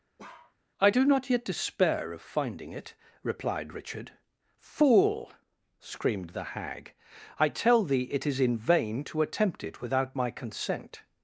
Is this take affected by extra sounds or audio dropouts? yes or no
yes